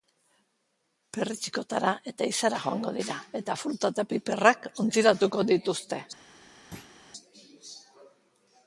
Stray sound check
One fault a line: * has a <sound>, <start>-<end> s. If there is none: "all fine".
* has a thud, 6.7-6.9 s